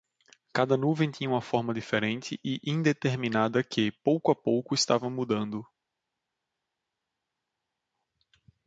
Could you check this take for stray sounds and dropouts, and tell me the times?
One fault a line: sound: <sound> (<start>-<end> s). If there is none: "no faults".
no faults